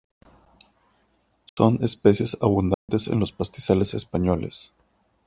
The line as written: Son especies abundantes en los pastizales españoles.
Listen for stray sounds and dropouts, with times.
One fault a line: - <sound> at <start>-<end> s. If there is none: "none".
- dropout at 1.5-1.6 s
- dropout at 2.7-2.9 s